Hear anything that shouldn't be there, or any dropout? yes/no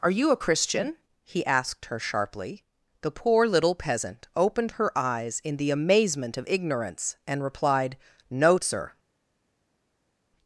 no